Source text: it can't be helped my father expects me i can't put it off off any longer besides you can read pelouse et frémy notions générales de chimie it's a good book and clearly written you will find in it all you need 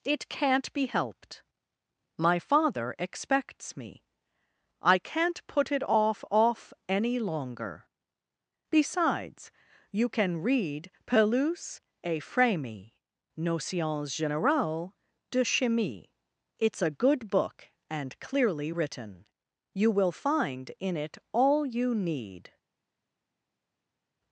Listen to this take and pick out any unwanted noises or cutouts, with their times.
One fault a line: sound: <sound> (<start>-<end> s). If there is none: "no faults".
no faults